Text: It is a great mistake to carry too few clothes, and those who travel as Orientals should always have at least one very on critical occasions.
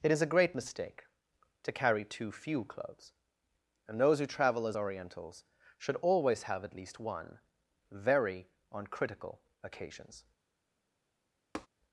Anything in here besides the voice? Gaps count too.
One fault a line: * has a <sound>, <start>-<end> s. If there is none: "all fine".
* has a tap, 11.5-11.7 s